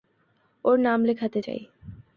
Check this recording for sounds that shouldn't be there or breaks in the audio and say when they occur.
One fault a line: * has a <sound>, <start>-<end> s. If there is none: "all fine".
all fine